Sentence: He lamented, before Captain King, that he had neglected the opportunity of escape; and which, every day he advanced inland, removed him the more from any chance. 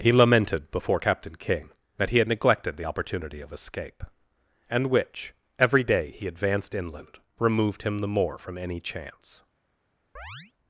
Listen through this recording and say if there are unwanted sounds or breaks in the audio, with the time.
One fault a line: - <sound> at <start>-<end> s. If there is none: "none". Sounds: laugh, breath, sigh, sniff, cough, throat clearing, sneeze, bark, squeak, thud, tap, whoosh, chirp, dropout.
- chirp at 10.2-10.5 s